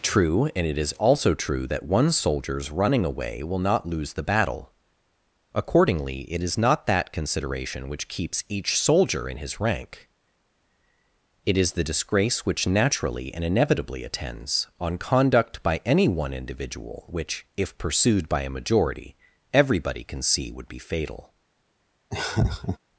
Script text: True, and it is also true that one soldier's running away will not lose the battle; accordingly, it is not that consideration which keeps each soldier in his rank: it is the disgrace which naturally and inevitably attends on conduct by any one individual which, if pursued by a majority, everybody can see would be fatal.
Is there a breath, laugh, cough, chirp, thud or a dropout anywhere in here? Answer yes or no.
yes